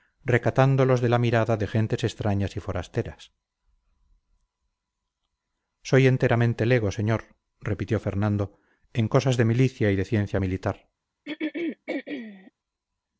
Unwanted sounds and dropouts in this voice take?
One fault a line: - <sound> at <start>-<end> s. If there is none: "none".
- throat clearing at 11.3-12.5 s